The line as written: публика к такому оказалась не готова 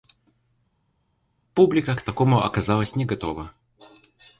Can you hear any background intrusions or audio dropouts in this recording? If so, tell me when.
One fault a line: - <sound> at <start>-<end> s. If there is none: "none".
none